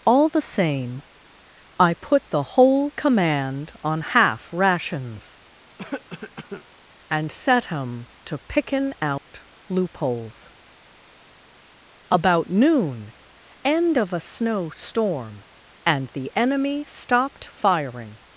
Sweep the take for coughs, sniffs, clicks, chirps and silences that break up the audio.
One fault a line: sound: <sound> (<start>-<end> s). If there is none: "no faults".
sound: cough (5.8-6.6 s)
sound: dropout (9.2-9.3 s)